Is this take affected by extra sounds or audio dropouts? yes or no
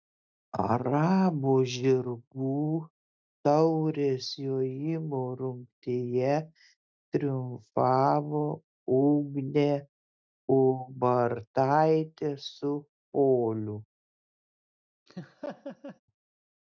yes